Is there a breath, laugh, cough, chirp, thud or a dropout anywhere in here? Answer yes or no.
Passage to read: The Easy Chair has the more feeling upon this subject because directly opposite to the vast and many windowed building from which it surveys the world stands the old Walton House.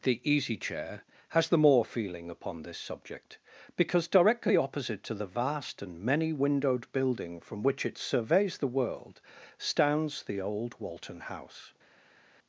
no